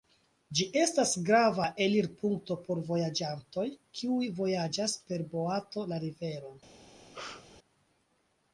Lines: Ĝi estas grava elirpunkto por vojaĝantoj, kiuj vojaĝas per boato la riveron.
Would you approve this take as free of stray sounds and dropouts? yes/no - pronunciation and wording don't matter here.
no